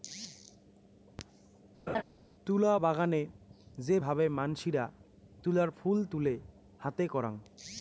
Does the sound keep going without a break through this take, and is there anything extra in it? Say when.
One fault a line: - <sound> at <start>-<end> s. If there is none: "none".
- laugh at 1.9-2.0 s